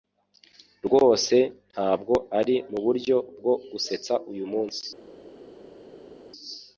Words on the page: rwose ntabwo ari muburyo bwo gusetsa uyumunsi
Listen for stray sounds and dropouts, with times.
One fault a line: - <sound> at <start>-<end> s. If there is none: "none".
none